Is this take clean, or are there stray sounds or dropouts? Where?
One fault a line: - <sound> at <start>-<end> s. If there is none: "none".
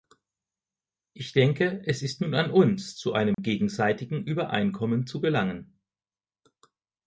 - dropout at 3.3-3.4 s